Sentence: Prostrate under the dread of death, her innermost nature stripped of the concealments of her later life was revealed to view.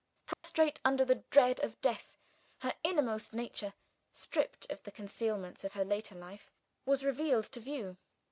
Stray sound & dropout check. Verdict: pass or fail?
fail